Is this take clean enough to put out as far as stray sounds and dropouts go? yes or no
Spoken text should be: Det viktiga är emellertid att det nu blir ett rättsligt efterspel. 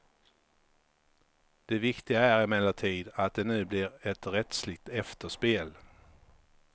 yes